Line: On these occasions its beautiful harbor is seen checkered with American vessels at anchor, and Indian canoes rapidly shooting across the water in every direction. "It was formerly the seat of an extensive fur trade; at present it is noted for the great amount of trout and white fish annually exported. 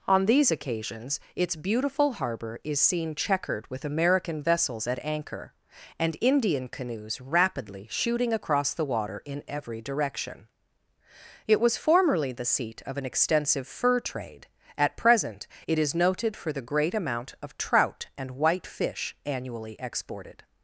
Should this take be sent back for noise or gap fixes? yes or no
no